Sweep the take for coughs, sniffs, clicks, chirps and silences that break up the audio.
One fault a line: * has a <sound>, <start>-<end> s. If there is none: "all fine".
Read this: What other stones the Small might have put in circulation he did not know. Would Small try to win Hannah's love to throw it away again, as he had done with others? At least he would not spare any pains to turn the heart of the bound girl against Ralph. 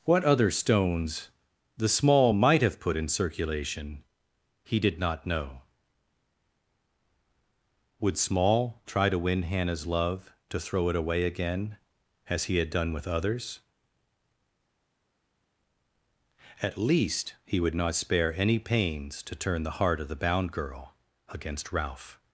all fine